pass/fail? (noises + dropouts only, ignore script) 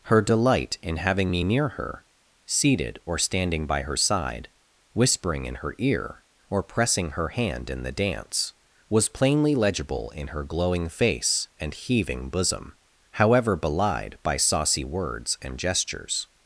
pass